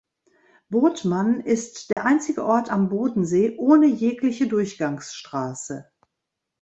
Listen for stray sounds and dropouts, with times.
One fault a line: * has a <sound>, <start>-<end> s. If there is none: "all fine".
* has a dropout, 1.9-2.0 s